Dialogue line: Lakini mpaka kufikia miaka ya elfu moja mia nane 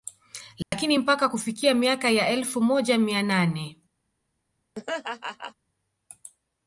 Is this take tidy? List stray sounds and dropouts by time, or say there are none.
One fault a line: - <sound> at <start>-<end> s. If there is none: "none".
- dropout at 0.6-0.7 s
- laugh at 4.7-5.5 s